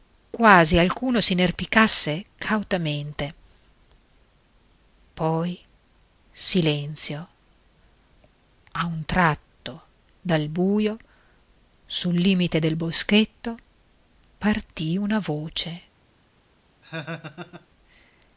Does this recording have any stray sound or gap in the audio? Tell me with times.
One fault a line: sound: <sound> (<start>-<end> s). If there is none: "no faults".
sound: laugh (16.8-17.7 s)